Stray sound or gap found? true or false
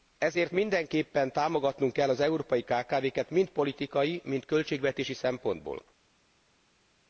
false